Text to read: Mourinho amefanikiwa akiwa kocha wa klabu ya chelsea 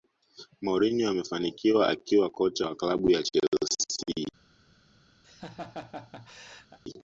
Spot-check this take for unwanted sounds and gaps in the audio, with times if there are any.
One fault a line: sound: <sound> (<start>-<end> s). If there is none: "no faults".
sound: laugh (5.2-6.8 s)